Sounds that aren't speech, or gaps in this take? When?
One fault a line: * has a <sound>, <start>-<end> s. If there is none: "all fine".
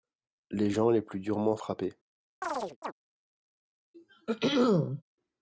* has a chirp, 2.4-2.9 s
* has a throat clearing, 3.9-5.0 s